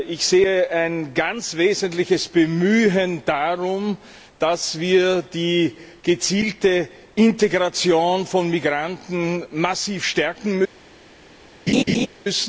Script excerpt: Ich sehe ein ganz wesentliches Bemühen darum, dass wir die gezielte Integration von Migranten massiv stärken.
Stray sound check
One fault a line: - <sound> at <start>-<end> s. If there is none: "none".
- laugh at 11.7-12.1 s